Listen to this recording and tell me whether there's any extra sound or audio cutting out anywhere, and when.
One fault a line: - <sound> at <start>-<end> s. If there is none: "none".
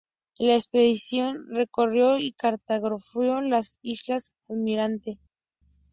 none